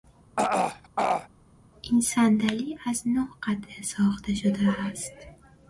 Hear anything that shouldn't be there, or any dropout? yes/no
yes